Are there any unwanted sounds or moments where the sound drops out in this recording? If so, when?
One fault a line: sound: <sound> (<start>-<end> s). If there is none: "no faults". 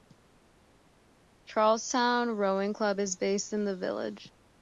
no faults